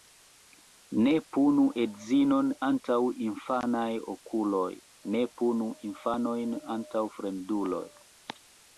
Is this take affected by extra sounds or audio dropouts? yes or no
no